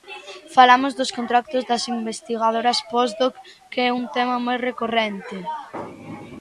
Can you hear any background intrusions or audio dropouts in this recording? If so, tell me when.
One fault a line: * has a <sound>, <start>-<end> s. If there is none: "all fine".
all fine